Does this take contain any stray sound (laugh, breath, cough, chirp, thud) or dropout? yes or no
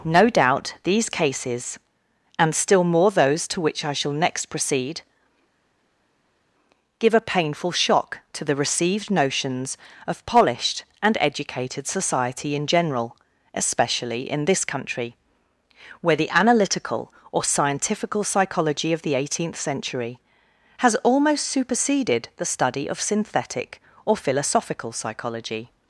no